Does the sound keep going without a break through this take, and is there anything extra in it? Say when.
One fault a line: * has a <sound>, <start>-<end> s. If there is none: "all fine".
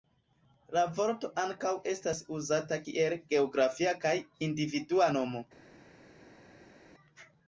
all fine